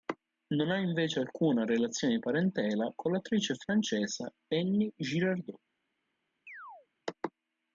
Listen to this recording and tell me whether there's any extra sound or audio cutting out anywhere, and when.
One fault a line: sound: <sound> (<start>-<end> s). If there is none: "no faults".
sound: chirp (6.5-6.9 s)